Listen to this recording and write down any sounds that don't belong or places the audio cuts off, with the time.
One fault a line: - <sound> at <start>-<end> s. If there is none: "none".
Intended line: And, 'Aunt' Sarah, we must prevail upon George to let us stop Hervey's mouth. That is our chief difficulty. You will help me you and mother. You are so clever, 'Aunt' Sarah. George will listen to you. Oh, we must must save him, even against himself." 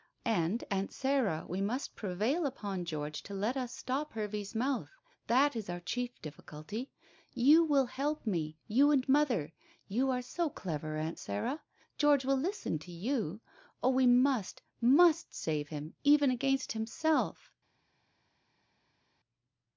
none